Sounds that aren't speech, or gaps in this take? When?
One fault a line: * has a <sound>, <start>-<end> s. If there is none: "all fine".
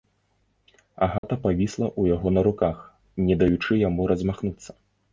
* has a dropout, 1.2-1.2 s